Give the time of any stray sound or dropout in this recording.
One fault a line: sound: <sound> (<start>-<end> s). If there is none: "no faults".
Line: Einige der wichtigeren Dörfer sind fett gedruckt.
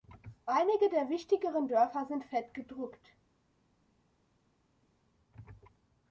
no faults